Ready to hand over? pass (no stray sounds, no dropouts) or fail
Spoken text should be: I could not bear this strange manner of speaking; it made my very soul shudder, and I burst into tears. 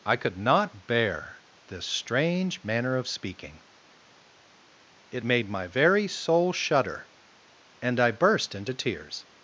pass